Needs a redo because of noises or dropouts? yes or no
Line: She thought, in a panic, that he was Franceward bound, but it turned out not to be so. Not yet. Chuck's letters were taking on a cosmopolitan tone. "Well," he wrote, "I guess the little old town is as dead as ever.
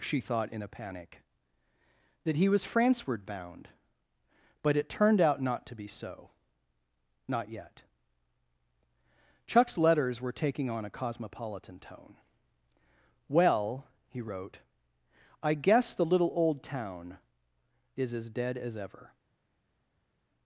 no